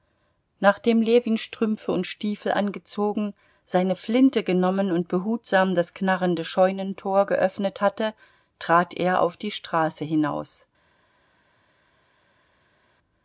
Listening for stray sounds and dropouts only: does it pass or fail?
pass